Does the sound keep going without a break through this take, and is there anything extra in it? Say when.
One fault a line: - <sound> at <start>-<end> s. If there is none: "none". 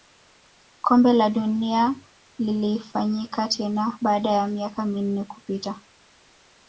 none